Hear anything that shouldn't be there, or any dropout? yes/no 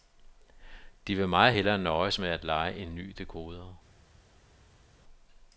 no